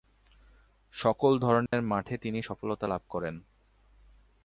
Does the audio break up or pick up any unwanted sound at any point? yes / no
yes